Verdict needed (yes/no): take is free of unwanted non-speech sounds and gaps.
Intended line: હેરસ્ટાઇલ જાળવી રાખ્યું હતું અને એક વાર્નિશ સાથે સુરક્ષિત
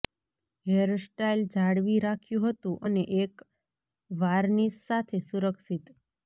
yes